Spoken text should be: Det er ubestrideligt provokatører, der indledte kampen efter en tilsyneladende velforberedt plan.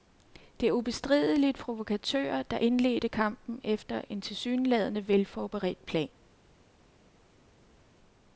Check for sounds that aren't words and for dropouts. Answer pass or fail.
pass